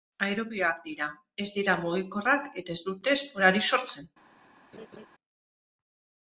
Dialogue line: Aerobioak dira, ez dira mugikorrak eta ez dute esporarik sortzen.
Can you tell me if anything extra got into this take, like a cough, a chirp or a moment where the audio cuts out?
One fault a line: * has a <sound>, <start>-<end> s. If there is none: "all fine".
* has a laugh, 4.7-5.1 s